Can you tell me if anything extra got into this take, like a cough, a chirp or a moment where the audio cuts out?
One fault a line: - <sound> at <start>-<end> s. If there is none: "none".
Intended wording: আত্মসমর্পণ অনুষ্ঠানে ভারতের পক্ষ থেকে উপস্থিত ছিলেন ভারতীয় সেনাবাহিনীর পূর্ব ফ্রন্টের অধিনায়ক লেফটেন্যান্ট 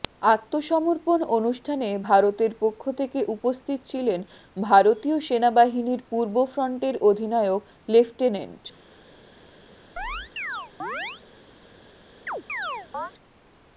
- chirp at 10.0-11.2 s
- chirp at 12.3-13.1 s